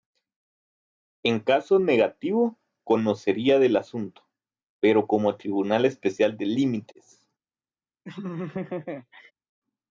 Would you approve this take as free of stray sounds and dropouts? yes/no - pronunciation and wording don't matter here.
no